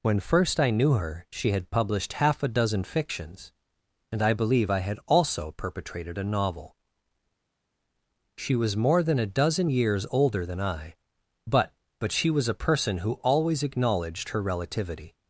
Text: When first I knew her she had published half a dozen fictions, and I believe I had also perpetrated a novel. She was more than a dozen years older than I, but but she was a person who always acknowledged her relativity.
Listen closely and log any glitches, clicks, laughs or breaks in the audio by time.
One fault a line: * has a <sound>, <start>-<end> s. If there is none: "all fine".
all fine